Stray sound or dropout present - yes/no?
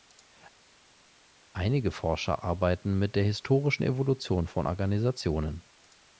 no